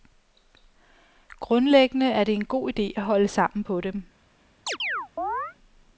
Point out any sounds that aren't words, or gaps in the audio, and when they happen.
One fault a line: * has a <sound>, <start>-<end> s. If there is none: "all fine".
* has a chirp, 4.7-5.6 s